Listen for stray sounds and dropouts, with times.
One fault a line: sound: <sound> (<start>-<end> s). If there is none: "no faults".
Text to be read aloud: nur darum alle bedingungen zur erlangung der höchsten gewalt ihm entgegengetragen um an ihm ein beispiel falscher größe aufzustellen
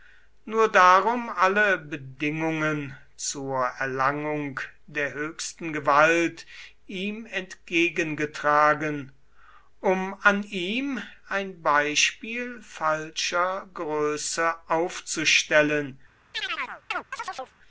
sound: chirp (16.3-17.6 s)